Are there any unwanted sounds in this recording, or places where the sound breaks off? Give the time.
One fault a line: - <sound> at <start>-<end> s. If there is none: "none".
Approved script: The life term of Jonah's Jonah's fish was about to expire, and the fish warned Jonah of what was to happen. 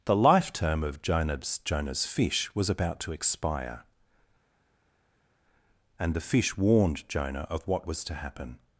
none